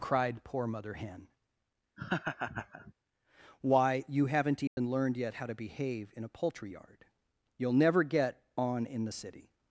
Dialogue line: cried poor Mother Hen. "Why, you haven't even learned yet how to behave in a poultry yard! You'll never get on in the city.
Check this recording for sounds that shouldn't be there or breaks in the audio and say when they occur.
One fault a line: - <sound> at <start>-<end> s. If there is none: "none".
- laugh at 2.0-2.9 s
- dropout at 4.7-4.8 s